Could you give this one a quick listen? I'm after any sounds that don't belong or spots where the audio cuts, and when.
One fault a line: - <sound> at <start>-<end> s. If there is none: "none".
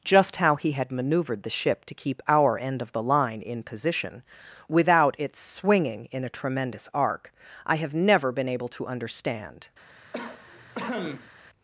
- cough at 10.1-11.3 s